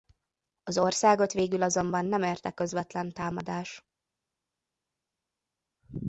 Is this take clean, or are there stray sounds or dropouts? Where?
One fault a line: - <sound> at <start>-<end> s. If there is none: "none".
none